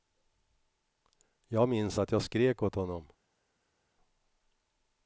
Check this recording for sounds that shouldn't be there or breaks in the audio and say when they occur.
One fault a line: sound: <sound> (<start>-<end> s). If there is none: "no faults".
no faults